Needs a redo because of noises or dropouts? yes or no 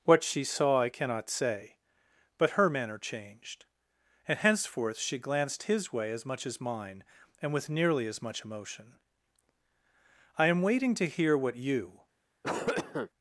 yes